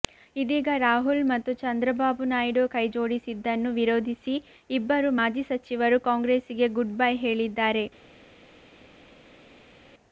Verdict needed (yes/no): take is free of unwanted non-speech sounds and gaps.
yes